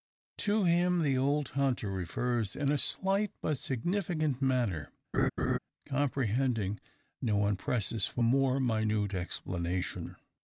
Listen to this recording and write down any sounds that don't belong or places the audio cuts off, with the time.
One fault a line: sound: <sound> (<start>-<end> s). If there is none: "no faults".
sound: laugh (5.1-5.6 s)